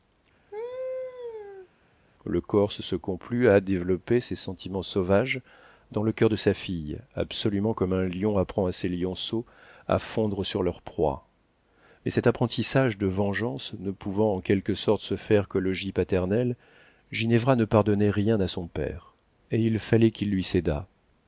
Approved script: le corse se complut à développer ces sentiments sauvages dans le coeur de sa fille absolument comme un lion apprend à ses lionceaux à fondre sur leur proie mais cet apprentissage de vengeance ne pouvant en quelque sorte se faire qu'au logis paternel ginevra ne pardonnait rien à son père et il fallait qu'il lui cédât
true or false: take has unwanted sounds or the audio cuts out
true